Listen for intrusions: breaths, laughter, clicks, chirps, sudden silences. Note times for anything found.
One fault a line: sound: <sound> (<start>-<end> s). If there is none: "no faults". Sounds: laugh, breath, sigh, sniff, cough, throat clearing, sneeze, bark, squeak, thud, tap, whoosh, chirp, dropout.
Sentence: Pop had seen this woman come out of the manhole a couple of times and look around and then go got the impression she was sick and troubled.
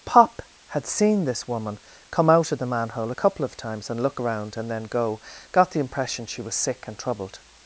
no faults